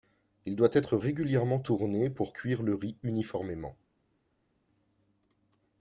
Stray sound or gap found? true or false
false